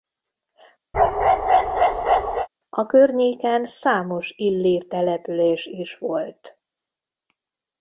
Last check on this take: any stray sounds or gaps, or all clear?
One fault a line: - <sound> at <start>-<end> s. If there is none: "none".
- bark at 0.9-2.5 s